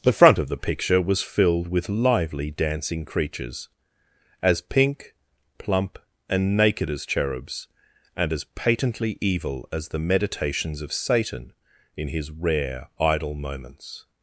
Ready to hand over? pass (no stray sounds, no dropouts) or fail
pass